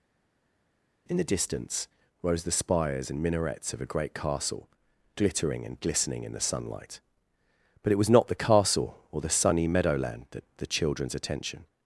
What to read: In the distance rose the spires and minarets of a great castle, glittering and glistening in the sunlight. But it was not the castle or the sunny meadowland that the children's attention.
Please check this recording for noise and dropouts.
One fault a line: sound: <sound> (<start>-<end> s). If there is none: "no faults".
no faults